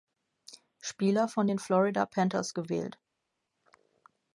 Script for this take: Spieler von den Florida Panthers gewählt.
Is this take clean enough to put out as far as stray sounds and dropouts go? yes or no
yes